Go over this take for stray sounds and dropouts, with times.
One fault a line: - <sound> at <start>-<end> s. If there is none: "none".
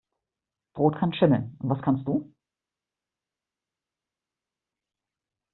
none